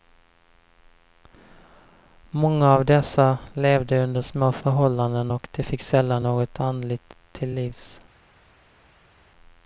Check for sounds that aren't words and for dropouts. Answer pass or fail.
pass